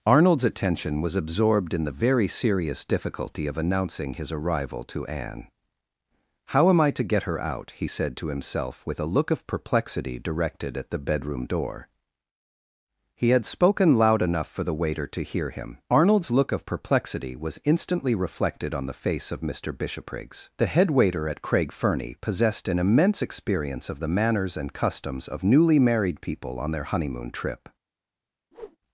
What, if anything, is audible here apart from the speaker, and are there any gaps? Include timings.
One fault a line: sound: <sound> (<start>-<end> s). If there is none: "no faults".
sound: whoosh (28.5-28.8 s)